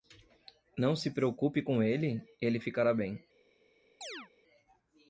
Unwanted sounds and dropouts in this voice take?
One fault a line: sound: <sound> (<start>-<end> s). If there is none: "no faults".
sound: chirp (4.0-4.3 s)